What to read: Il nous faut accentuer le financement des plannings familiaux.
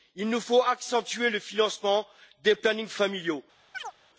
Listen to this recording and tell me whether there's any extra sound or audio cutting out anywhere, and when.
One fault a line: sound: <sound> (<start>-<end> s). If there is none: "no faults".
sound: chirp (3.7-3.9 s)